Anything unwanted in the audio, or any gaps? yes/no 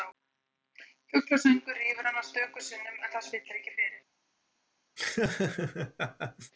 yes